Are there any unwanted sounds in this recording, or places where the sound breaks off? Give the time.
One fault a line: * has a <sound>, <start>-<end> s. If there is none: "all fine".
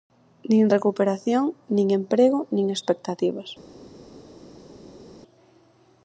all fine